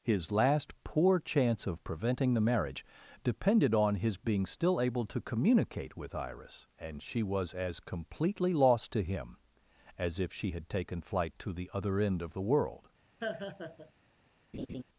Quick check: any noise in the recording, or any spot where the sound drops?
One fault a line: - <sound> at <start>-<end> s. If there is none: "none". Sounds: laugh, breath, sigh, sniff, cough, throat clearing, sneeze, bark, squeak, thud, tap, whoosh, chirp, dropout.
- laugh at 13.2-13.9 s
- laugh at 14.5-14.8 s